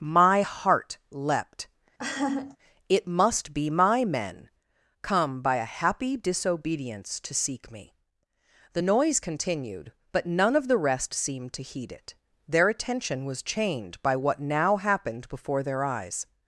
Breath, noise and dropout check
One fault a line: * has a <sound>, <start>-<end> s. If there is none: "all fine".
* has a laugh, 2.0-2.6 s